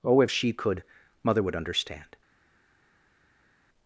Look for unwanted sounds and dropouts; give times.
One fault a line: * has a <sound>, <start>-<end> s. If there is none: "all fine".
all fine